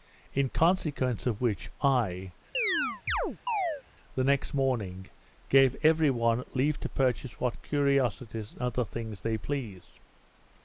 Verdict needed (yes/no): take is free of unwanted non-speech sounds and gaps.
no